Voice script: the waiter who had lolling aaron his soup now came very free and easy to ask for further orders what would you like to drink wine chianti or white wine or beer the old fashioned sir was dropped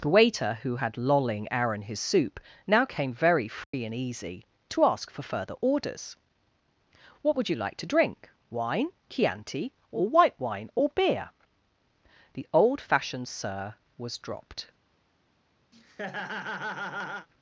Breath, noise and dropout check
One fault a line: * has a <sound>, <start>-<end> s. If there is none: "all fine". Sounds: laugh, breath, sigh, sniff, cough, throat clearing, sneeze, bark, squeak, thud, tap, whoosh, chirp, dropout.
* has a dropout, 3.6-3.7 s
* has a laugh, 15.7-17.3 s